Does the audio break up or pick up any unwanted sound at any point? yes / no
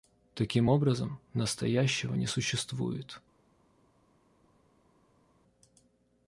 no